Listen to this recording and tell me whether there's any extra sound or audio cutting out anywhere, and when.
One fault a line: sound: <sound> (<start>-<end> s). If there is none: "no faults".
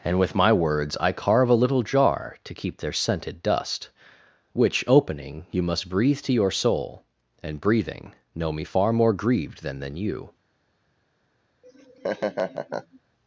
sound: laugh (11.6-13.0 s)